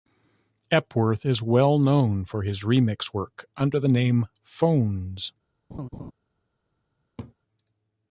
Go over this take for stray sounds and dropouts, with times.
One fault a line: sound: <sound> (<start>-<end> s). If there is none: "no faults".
sound: laugh (5.7-6.1 s)
sound: laugh (7.2-7.3 s)